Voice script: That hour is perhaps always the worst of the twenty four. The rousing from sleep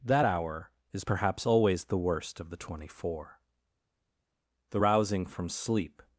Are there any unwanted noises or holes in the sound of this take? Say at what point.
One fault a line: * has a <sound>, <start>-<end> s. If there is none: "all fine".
all fine